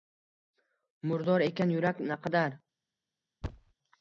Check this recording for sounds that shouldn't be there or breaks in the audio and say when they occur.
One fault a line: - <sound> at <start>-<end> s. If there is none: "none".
- thud at 3.4-3.7 s